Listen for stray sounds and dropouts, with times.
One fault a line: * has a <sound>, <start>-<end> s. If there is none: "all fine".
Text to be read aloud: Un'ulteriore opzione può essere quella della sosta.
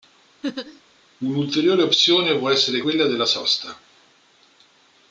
* has a laugh, 0.4-0.8 s